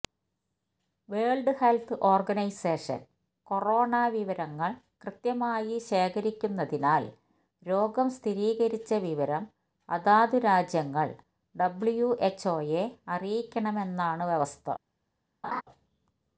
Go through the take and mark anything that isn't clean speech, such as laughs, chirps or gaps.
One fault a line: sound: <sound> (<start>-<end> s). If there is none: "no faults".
sound: laugh (15.4-15.6 s)